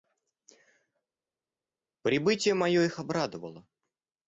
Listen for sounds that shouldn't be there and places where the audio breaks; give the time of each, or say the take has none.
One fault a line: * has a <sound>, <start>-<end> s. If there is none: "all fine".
all fine